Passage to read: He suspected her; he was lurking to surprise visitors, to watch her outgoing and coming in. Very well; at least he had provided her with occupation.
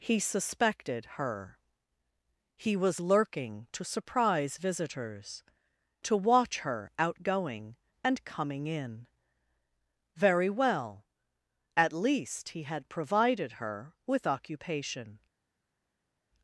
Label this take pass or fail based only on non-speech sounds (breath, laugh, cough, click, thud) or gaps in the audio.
pass